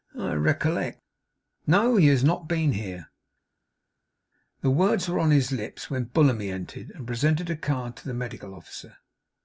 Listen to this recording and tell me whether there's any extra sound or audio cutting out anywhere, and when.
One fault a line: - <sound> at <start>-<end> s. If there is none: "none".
none